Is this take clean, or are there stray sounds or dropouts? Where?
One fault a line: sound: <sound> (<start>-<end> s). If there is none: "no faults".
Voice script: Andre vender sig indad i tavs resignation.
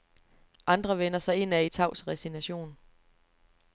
no faults